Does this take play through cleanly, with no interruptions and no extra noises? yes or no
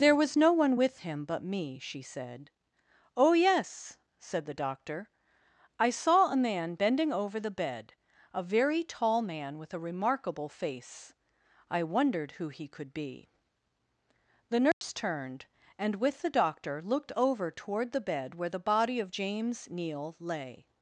no